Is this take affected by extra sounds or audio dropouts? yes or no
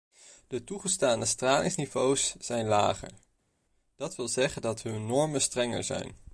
no